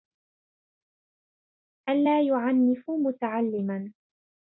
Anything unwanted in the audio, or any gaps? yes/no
no